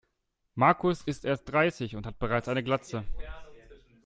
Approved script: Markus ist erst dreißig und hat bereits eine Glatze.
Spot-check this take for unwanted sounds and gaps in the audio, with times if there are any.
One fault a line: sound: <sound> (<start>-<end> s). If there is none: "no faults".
no faults